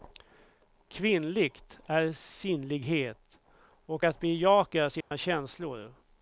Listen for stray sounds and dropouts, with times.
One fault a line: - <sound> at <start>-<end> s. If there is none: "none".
- dropout at 5.0-5.1 s